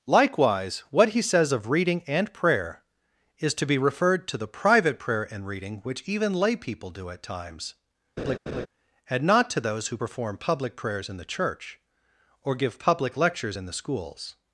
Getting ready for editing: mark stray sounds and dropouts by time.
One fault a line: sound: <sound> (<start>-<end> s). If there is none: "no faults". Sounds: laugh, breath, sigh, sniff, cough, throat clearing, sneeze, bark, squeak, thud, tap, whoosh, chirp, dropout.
sound: laugh (8.2-8.7 s)